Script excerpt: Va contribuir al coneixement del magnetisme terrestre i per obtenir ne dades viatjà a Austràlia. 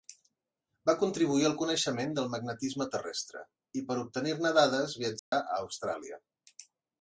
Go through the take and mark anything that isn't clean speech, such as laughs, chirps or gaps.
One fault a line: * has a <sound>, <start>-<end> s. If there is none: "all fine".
* has a dropout, 5.2-5.3 s